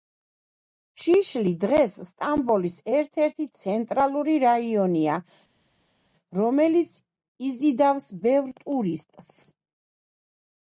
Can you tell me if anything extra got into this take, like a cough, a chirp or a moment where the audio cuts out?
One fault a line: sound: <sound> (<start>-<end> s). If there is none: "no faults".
no faults